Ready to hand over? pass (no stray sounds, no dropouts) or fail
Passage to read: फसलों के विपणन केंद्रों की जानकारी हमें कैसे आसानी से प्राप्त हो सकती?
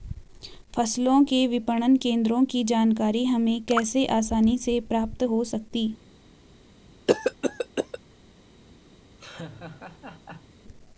fail